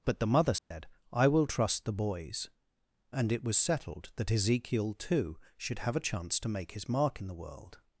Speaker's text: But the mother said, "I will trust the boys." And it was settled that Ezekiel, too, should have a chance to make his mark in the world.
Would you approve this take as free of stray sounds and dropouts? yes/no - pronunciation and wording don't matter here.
no